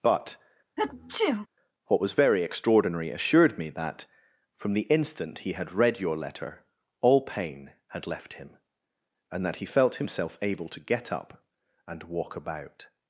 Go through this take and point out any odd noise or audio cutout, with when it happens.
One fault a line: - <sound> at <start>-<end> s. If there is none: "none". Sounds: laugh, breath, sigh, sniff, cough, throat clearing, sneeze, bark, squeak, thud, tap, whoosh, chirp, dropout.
- sneeze at 0.8-1.5 s